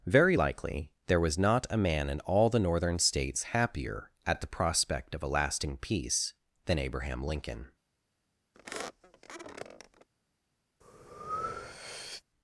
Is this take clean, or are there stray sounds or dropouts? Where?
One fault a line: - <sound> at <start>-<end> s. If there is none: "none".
- squeak at 8.5-10.1 s
- breath at 10.8-12.2 s